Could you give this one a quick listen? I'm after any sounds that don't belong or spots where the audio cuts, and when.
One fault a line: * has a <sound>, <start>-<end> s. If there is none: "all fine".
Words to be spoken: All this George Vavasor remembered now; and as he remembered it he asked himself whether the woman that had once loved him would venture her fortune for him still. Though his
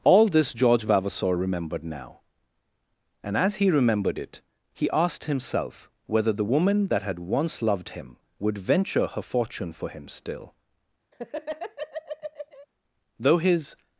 * has a laugh, 11.1-12.7 s